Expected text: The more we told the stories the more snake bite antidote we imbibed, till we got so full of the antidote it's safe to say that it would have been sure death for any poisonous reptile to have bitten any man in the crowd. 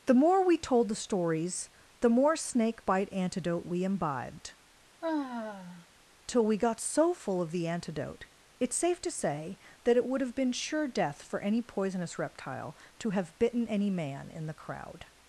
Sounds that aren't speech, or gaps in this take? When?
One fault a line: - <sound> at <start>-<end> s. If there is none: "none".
- sigh at 5.0-5.9 s